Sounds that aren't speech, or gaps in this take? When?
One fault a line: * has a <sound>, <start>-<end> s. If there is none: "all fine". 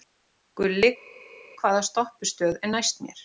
all fine